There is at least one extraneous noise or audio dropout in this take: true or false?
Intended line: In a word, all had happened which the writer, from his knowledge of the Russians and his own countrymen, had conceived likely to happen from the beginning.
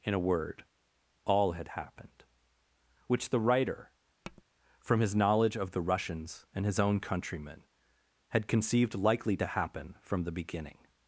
true